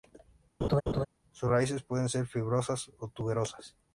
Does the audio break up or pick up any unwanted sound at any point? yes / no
yes